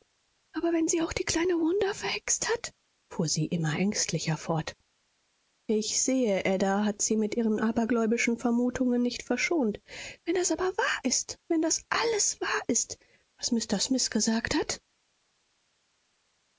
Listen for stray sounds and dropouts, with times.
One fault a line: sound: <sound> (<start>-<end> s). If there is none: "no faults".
no faults